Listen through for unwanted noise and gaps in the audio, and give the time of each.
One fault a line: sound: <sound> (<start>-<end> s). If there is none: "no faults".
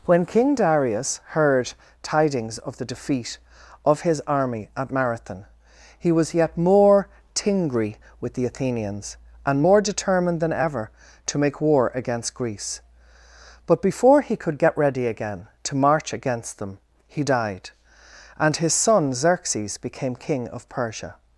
no faults